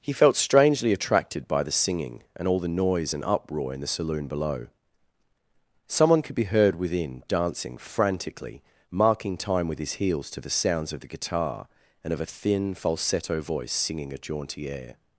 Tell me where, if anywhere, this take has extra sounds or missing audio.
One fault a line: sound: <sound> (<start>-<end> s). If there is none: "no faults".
no faults